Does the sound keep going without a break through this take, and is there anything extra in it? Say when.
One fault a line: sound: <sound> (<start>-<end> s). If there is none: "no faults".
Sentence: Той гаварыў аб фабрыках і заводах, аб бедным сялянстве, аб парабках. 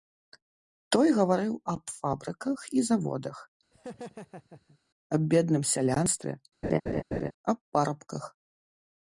sound: laugh (3.7-4.8 s)
sound: laugh (6.6-7.3 s)